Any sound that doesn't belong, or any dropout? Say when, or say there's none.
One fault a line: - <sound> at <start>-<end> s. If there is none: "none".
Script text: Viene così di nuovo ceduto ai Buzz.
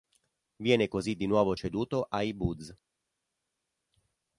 none